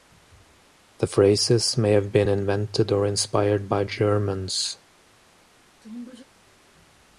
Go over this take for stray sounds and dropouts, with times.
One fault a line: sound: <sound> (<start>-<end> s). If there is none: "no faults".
sound: sneeze (5.8-6.2 s)